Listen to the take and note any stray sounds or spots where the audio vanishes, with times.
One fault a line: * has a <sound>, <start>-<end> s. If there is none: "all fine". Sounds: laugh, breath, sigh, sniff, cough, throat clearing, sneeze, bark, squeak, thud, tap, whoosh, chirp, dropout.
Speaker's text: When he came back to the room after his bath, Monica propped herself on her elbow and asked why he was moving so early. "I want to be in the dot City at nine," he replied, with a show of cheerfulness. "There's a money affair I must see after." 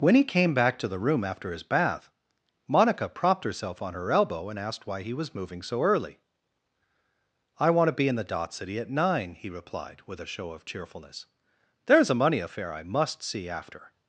all fine